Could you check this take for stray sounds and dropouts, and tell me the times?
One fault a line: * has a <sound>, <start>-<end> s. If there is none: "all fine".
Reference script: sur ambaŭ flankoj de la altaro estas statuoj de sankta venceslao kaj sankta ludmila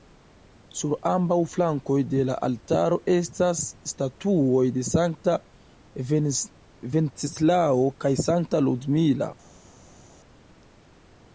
all fine